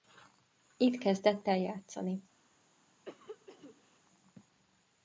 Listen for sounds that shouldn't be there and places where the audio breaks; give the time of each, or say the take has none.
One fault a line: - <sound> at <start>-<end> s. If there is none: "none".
- cough at 3.0-4.0 s